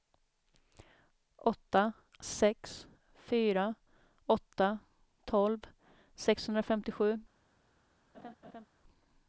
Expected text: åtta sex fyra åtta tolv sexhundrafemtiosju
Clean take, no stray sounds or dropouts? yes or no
no